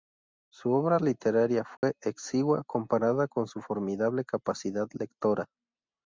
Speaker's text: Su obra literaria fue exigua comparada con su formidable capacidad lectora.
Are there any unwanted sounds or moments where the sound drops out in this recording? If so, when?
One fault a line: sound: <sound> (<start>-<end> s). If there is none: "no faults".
sound: dropout (1.8-1.8 s)